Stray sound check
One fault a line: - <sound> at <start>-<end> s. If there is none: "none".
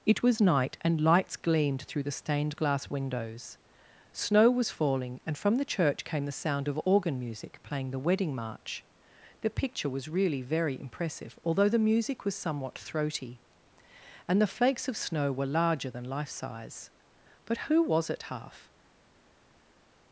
none